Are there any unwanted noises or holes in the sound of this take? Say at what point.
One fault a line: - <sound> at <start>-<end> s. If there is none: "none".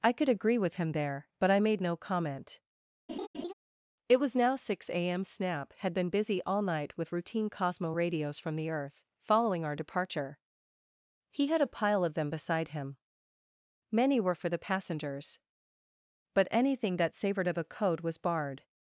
- laugh at 3.1-3.5 s